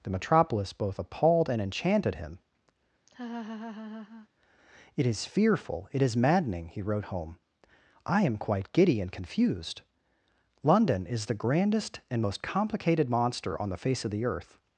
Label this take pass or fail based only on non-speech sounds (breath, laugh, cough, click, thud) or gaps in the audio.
fail